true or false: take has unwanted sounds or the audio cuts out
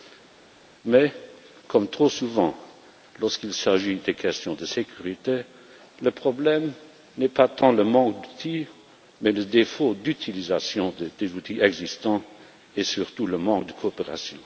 false